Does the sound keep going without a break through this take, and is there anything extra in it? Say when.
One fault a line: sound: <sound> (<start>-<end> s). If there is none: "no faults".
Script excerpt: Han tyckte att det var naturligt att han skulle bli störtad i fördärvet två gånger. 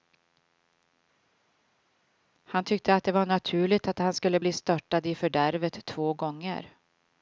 no faults